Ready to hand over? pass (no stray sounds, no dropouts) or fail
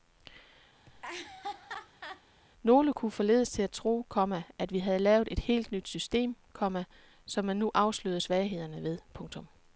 fail